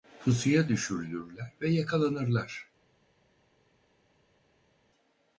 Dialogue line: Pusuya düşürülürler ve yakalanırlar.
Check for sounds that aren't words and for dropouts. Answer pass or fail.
pass